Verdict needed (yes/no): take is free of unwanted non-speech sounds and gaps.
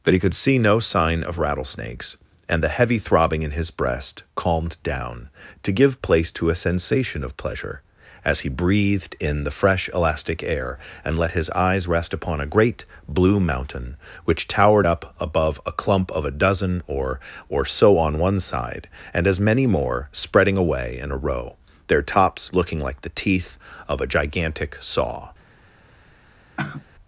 no